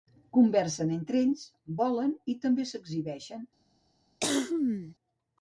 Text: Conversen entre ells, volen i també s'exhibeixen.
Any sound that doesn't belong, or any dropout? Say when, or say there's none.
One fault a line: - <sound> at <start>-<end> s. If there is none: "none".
- cough at 4.2-4.9 s